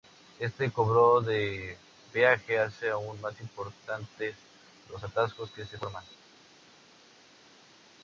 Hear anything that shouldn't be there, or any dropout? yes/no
no